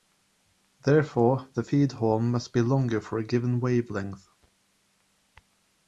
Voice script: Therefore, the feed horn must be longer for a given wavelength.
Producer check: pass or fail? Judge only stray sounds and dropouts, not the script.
pass